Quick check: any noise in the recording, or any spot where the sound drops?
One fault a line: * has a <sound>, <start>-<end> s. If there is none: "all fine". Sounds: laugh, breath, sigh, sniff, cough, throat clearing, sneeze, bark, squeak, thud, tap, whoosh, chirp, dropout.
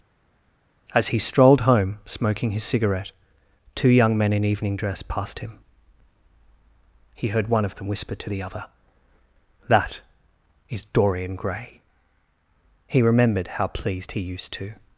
all fine